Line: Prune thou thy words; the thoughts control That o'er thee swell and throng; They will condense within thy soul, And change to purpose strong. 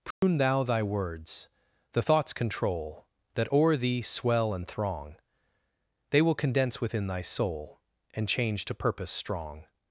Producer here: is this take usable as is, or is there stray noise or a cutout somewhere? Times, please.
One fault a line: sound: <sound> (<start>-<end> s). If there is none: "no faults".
sound: dropout (0.1-0.2 s)